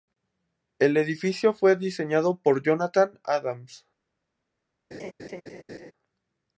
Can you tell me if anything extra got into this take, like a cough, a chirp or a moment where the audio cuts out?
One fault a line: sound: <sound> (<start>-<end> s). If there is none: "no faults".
sound: laugh (4.9-5.9 s)